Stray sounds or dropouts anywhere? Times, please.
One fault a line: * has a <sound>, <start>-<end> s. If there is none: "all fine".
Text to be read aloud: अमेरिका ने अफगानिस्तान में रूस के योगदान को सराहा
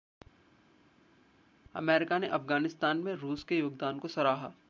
all fine